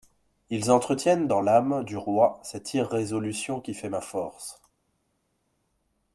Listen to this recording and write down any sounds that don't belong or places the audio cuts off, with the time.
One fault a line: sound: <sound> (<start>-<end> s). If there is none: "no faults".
no faults